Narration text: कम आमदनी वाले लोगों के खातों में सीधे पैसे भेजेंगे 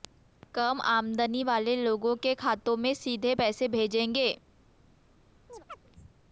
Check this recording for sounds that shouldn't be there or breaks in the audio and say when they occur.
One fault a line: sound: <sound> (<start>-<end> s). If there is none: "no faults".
sound: chirp (5.5-5.8 s)